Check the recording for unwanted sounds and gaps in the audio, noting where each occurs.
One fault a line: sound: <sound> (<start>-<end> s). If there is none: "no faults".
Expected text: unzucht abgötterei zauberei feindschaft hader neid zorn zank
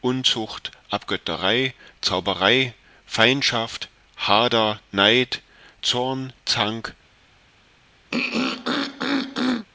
sound: throat clearing (8.1-9.7 s)